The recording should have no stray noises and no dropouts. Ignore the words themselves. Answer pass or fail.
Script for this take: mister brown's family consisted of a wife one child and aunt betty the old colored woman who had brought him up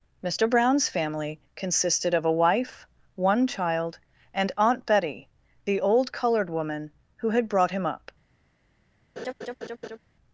fail